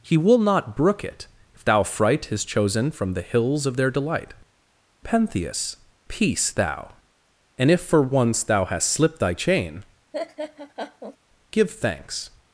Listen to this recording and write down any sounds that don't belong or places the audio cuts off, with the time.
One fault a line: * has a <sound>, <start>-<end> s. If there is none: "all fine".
* has a laugh, 10.1-11.2 s